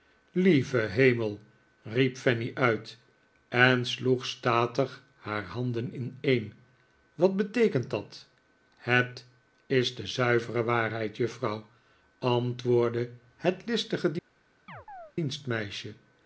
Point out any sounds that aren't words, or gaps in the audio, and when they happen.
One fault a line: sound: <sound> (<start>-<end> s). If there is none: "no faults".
sound: chirp (14.7-15.1 s)